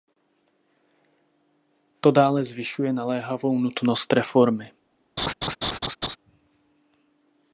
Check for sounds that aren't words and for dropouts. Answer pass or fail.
fail